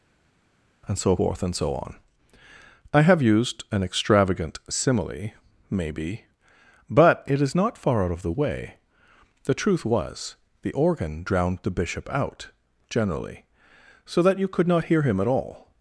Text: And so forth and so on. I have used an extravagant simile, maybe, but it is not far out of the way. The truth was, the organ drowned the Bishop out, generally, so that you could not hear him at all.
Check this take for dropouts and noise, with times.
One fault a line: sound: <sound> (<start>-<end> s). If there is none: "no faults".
no faults